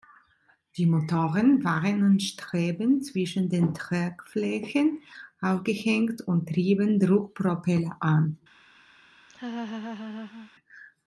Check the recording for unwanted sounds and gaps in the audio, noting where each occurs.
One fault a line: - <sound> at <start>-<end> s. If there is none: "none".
- laugh at 9.3-10.5 s